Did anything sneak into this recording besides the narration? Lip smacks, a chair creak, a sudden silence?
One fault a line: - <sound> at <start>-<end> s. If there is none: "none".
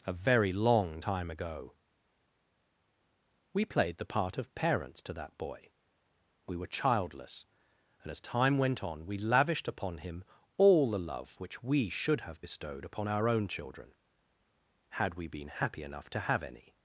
none